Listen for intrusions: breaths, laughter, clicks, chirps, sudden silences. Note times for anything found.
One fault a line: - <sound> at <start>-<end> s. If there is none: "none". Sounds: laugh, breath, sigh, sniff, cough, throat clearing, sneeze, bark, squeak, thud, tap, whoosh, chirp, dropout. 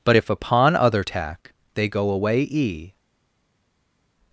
none